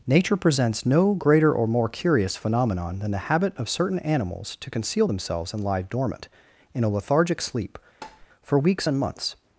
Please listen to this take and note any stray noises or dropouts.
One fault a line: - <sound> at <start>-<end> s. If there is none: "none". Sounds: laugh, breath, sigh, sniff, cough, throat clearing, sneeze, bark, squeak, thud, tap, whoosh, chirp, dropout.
- tap at 8.0-8.3 s